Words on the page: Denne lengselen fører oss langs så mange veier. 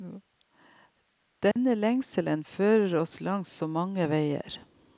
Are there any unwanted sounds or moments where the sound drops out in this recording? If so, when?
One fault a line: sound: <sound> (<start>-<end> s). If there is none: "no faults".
sound: dropout (1.5-1.6 s)